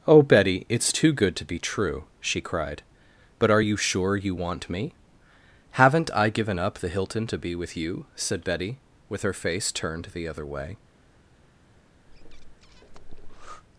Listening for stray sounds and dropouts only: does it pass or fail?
fail